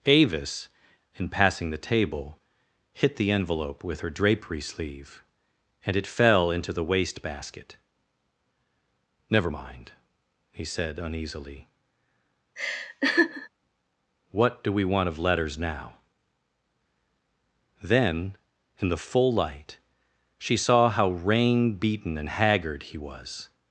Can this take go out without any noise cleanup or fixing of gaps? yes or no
no